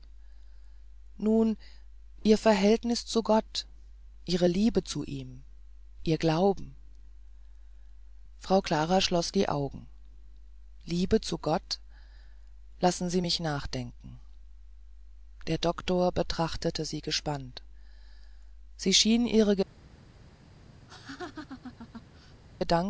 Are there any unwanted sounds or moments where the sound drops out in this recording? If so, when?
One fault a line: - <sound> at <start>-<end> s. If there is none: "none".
- laugh at 20.9-22.4 s